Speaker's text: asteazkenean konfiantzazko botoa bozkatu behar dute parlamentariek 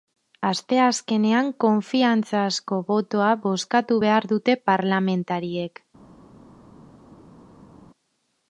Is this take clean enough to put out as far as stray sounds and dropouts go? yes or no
yes